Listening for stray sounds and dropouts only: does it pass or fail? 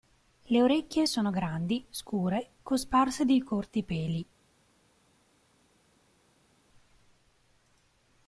pass